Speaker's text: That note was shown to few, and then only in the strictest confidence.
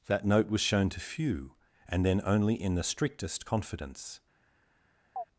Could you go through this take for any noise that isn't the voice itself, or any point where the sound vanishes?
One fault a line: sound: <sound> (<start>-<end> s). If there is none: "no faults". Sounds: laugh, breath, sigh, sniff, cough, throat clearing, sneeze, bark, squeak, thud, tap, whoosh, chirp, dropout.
sound: chirp (5.2-5.2 s)